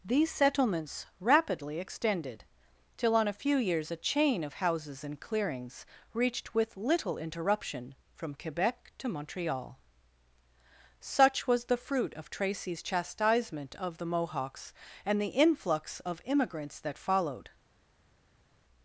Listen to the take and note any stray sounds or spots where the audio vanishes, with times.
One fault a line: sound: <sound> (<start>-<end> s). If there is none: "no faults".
no faults